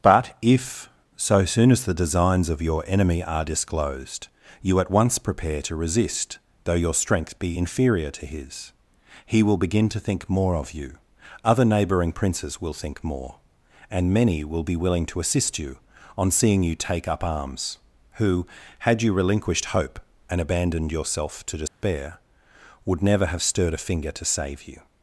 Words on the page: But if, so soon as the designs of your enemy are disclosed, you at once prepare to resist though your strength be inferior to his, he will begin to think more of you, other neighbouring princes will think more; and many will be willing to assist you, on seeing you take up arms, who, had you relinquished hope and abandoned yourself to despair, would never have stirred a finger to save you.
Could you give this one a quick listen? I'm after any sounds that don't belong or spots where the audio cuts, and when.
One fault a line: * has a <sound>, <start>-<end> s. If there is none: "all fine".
* has a dropout, 21.7-21.8 s